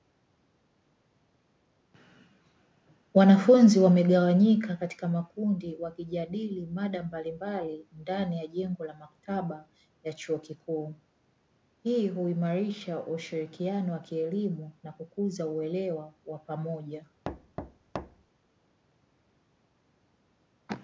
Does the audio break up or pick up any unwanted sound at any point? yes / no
yes